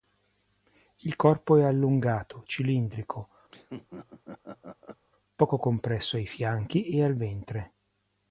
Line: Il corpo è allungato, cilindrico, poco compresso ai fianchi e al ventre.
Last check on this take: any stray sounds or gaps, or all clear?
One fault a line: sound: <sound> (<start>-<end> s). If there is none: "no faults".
sound: laugh (3.5-5.0 s)